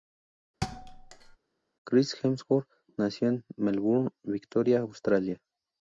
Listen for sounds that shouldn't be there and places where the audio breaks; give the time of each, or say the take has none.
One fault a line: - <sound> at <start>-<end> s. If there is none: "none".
- thud at 0.6-1.4 s